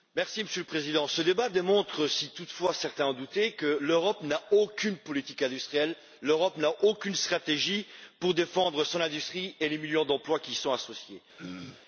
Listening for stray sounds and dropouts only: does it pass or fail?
fail